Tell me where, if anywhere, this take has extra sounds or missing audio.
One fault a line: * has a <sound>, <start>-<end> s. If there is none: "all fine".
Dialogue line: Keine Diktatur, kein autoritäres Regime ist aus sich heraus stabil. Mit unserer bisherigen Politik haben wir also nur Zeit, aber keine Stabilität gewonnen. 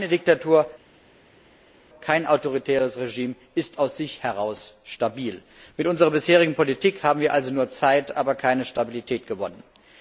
all fine